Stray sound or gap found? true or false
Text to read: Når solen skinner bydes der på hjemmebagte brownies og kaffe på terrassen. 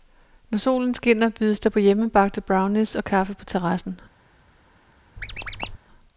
true